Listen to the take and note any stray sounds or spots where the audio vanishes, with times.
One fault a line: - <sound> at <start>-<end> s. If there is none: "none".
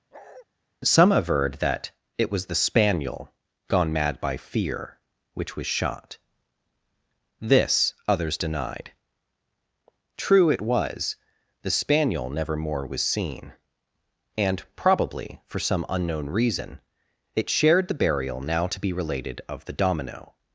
- bark at 0.1-0.5 s